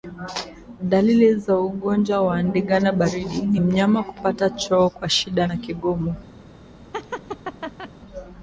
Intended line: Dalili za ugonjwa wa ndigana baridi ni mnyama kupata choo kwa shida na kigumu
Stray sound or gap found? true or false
true